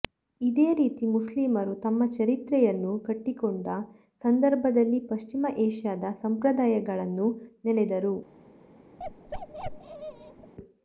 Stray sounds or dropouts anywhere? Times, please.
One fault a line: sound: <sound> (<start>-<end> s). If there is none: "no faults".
sound: bark (9.0-10.5 s)